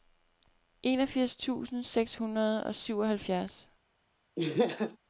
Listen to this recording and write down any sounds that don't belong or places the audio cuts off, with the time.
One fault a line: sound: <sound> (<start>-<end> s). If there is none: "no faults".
sound: laugh (4.4-5.0 s)